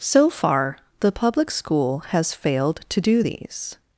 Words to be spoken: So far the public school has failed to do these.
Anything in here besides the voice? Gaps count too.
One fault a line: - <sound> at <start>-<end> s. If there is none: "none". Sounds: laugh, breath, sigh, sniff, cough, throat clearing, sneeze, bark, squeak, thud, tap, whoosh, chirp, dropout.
none